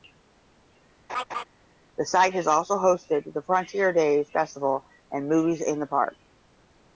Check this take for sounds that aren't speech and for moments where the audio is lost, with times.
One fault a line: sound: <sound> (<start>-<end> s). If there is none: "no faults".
sound: laugh (1.1-1.4 s)